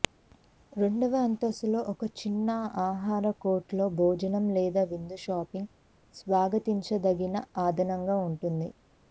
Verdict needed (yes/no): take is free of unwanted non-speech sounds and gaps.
yes